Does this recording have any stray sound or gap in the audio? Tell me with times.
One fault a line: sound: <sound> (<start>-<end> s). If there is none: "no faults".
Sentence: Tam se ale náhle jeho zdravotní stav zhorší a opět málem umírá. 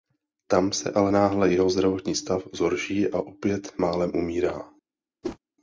sound: whoosh (5.2-5.4 s)